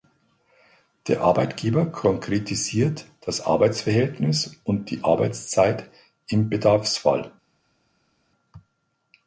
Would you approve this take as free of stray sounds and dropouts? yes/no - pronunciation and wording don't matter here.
yes